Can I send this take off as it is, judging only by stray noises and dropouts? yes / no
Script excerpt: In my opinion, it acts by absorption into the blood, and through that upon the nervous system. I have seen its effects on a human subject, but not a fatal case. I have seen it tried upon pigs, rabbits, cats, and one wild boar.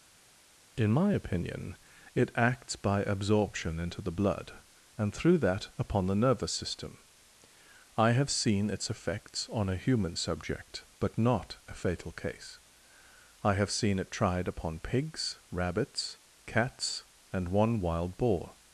yes